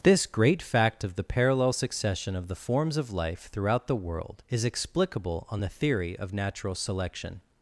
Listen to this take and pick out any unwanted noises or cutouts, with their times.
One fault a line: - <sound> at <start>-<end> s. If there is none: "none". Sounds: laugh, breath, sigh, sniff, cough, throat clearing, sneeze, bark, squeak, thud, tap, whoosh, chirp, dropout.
none